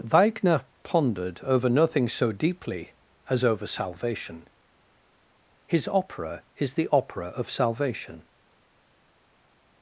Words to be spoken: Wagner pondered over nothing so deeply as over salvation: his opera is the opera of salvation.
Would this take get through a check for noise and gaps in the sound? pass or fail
pass